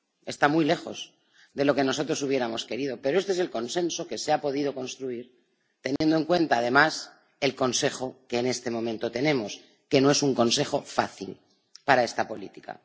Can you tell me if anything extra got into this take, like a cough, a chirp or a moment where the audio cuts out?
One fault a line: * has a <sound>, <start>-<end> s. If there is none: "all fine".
* has a dropout, 6.0-6.0 s